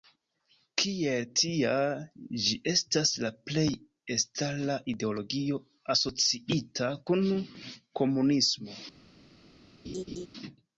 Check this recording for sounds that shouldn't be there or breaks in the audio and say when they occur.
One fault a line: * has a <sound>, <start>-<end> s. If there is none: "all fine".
* has a laugh, 9.8-10.3 s